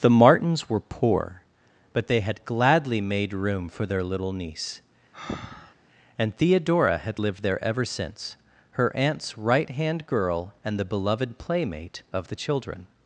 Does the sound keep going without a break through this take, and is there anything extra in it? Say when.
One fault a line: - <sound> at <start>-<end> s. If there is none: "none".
- breath at 5.1-5.8 s